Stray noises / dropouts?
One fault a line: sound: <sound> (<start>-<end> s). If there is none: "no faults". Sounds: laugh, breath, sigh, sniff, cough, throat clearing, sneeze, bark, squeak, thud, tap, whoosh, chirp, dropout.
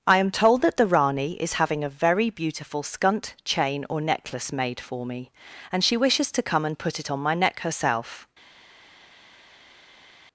no faults